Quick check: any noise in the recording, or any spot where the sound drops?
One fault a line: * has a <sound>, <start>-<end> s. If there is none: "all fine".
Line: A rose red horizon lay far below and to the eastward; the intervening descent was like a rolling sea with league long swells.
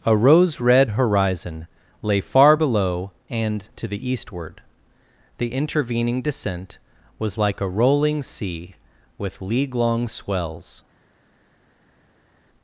all fine